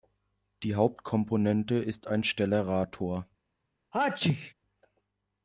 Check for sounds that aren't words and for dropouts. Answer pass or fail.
fail